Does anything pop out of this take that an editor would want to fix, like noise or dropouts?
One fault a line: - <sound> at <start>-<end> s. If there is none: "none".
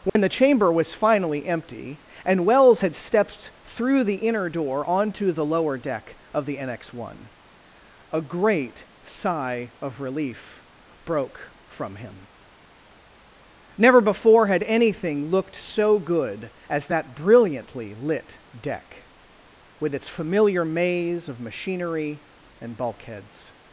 - dropout at 0.1-0.2 s